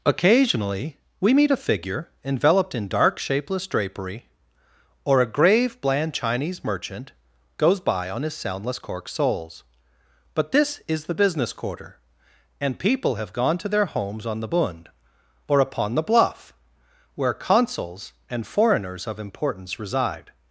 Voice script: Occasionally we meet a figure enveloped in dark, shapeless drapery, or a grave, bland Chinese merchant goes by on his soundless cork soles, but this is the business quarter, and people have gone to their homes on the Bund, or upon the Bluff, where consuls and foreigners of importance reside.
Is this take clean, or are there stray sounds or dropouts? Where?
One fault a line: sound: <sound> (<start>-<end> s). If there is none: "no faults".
no faults